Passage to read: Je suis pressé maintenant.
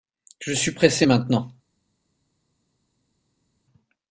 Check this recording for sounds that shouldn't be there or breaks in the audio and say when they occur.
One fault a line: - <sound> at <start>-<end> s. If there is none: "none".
none